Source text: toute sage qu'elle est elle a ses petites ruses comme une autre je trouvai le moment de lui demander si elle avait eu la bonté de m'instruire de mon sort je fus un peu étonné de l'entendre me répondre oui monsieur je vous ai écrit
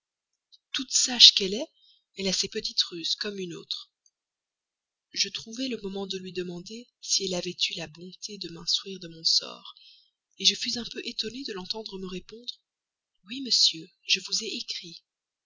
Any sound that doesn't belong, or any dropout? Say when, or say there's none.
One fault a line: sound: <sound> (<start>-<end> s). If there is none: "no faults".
no faults